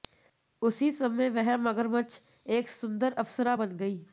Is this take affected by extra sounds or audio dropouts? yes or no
no